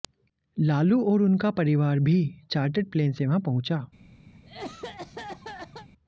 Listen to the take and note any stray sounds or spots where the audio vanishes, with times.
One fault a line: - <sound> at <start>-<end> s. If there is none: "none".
- cough at 4.3-5.9 s